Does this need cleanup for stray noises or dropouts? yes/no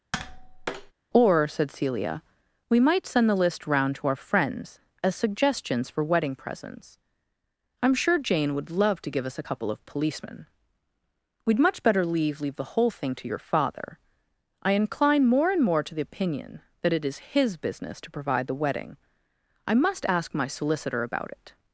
yes